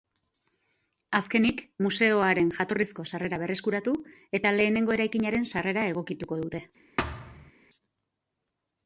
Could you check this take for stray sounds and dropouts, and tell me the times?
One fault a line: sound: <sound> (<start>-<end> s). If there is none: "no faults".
sound: thud (7.0-7.5 s)